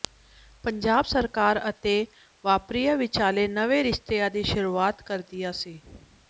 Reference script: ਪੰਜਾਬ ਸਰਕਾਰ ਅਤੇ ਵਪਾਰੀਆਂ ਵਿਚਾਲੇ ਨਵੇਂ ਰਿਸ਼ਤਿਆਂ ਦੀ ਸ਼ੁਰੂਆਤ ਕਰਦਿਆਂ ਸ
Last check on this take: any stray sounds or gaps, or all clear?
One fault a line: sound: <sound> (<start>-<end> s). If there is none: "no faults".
no faults